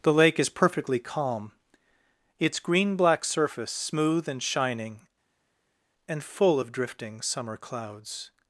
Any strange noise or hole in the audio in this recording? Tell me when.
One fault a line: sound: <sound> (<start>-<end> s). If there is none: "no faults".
no faults